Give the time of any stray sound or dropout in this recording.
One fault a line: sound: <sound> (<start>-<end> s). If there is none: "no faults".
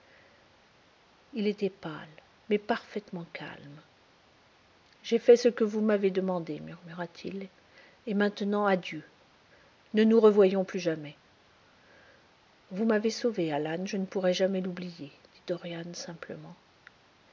no faults